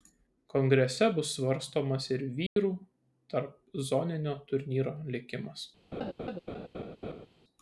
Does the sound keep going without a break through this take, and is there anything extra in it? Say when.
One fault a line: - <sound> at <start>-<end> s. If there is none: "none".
- dropout at 2.5-2.6 s
- laugh at 5.9-7.3 s